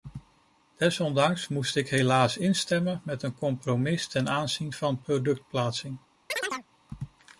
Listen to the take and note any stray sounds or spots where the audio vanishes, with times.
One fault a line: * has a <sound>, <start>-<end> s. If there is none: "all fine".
* has a chirp, 6.3-6.7 s